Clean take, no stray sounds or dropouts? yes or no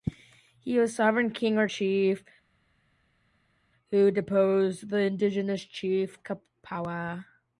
yes